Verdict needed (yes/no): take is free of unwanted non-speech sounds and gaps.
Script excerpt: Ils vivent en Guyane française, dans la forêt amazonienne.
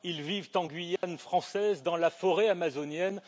no